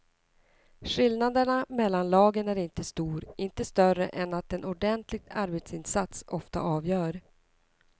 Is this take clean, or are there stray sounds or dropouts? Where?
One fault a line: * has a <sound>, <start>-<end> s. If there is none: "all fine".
all fine